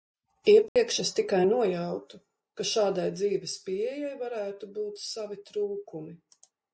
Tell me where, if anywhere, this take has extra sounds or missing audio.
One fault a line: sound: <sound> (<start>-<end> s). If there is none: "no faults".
sound: dropout (0.7-0.8 s)